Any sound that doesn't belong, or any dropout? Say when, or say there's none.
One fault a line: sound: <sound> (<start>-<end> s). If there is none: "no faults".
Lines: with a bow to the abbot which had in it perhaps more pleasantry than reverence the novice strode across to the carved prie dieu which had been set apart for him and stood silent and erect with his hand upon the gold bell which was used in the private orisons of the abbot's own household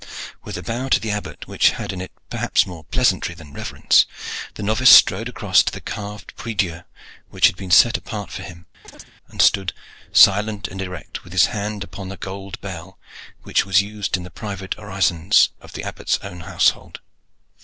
sound: chirp (8.8-9.1 s)